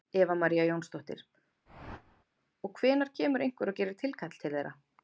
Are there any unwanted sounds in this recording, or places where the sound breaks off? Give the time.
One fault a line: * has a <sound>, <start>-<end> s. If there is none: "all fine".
* has a whoosh, 1.7-2.2 s